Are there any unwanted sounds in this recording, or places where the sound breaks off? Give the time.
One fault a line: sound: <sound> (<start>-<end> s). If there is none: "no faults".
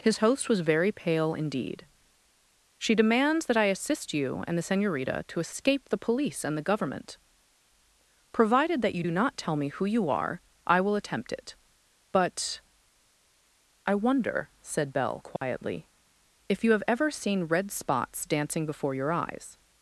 sound: dropout (15.4-15.4 s)